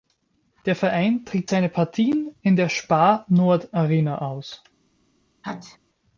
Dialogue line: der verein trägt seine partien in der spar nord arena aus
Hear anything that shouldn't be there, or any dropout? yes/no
yes